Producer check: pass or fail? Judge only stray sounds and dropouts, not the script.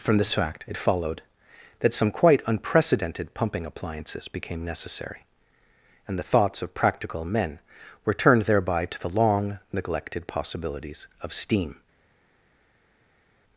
pass